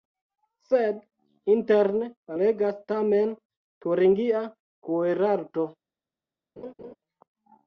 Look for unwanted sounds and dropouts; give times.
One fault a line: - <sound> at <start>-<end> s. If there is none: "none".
- laugh at 6.6-7.0 s